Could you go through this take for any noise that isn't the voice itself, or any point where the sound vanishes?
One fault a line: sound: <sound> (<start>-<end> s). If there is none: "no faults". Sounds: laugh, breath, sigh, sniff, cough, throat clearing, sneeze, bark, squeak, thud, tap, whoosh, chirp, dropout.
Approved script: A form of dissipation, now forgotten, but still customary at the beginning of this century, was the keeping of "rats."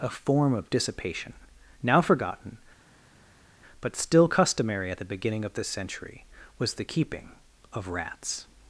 no faults